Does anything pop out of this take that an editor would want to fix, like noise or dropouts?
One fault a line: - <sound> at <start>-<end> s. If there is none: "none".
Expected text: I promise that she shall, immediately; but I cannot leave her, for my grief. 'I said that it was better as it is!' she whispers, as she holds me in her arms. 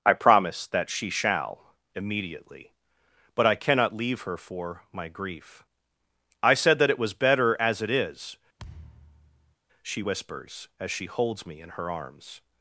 - thud at 8.6-9.6 s